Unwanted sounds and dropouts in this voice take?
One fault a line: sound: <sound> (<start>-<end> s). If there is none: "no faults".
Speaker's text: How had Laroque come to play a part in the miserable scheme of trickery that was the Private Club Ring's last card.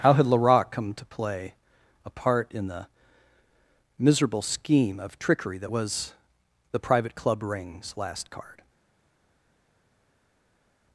no faults